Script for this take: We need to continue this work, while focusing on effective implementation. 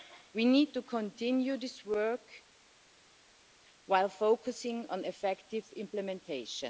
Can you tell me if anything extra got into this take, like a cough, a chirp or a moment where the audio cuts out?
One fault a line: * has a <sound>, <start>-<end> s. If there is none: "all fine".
all fine